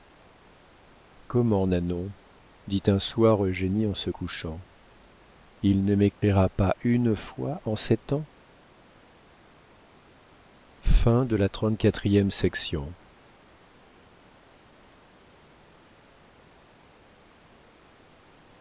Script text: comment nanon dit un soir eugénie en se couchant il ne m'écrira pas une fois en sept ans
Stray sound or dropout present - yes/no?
yes